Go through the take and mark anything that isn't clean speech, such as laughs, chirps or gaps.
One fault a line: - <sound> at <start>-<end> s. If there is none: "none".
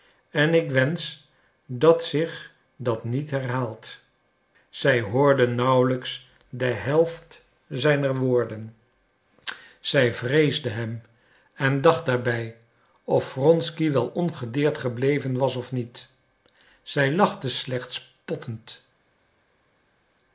none